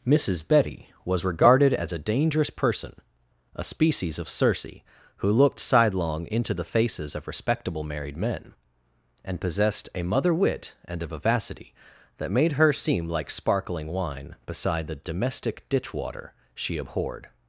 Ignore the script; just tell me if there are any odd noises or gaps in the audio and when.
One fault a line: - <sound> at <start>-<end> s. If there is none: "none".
none